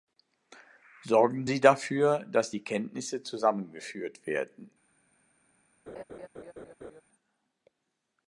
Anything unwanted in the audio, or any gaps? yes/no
yes